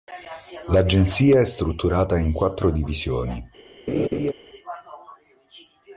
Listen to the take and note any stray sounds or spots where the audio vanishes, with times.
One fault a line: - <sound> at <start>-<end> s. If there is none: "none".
- laugh at 3.9-4.3 s